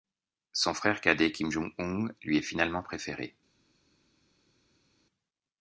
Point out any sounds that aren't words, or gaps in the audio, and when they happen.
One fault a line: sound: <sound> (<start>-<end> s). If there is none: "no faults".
no faults